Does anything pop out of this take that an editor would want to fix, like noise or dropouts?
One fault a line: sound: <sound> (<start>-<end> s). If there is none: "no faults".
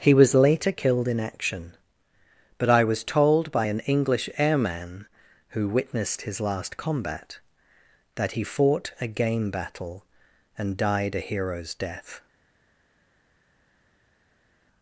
no faults